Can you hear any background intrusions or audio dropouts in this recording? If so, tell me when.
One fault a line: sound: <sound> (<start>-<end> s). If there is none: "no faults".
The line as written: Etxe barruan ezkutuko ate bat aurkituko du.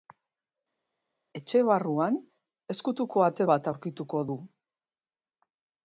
no faults